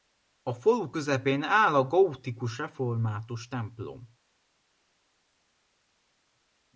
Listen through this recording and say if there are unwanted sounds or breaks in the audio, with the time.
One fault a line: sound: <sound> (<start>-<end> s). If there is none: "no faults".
no faults